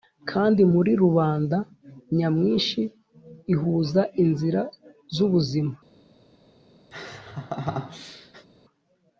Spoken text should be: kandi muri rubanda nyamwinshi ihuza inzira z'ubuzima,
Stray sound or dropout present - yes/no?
yes